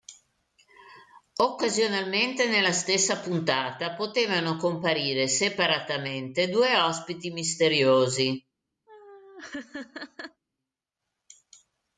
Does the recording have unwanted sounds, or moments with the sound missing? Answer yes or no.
yes